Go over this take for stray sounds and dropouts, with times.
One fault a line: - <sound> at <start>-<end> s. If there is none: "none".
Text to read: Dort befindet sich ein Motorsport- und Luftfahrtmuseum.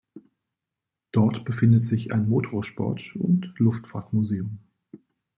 none